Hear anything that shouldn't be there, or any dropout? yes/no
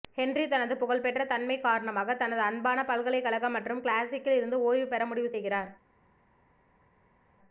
no